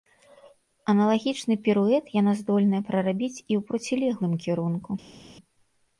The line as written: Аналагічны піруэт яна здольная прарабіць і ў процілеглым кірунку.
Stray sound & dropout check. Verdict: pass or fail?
pass